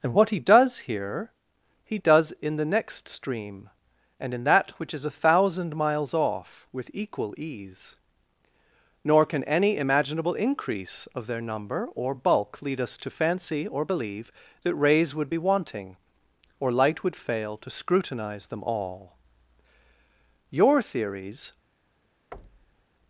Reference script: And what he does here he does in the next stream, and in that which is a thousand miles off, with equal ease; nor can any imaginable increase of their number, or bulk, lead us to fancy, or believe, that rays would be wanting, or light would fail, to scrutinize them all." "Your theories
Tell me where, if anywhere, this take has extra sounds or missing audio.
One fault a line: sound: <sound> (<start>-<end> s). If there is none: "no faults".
sound: thud (22.3-22.9 s)